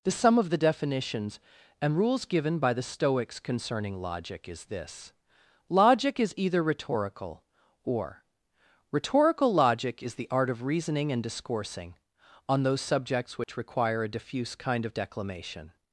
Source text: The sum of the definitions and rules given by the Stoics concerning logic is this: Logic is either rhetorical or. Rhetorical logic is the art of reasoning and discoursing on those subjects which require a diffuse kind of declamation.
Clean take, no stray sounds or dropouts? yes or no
no